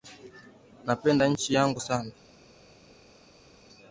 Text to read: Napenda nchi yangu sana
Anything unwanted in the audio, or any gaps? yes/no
no